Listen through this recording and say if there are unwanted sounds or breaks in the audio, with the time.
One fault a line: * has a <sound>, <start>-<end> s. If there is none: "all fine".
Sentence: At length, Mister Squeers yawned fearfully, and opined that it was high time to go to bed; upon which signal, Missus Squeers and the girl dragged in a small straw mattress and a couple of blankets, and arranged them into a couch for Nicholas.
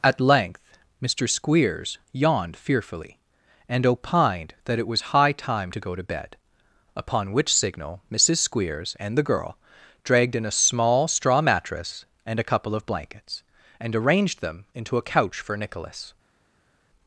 all fine